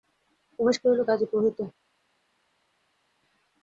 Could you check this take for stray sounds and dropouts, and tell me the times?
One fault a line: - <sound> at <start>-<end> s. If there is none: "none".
none